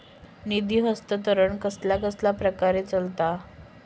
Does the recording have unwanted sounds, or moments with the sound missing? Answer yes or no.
no